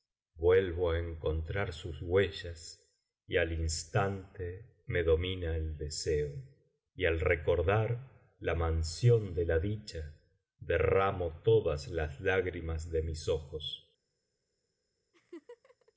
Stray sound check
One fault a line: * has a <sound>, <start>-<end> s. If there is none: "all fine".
* has a laugh, 15.1-15.9 s